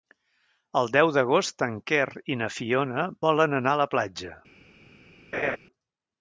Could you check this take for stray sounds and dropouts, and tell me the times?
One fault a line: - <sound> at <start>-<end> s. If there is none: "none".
- laugh at 5.3-5.6 s